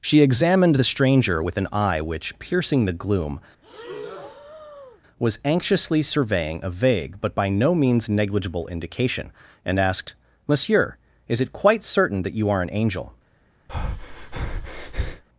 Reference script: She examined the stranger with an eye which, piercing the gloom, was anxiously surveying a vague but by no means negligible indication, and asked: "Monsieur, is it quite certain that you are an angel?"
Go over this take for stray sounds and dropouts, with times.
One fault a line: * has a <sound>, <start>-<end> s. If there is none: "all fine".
* has a breath, 3.6-5.0 s
* has a breath, 13.7-15.2 s